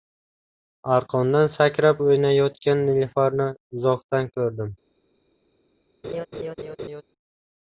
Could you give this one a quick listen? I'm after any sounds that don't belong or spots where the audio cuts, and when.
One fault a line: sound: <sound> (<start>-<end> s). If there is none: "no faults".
sound: laugh (6.0-7.0 s)